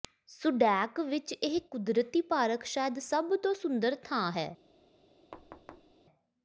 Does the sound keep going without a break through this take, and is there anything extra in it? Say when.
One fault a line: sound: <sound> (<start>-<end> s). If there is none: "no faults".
sound: thud (5.3-5.9 s)